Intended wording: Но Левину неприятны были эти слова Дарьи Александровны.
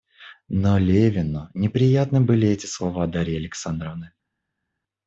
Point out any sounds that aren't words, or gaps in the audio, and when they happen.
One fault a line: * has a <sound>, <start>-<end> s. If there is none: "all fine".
all fine